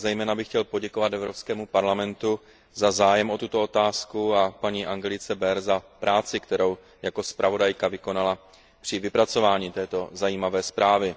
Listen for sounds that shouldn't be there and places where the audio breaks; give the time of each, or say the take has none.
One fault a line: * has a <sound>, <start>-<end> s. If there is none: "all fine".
all fine